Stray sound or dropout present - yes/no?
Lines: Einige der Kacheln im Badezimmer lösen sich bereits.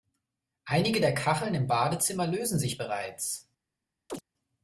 yes